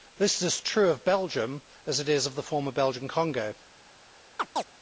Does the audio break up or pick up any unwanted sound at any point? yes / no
yes